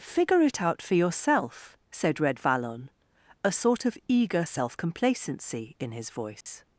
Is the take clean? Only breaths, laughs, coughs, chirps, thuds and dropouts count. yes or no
no